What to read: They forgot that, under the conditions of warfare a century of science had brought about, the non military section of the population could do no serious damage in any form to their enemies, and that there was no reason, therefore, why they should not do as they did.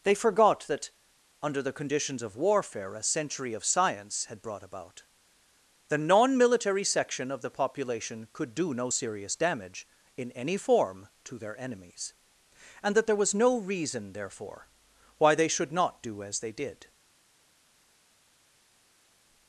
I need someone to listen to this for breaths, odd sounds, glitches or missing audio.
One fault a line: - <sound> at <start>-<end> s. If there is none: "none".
none